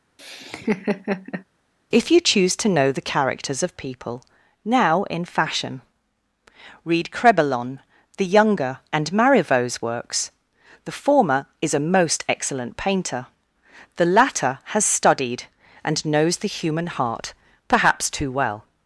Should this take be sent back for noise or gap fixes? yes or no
yes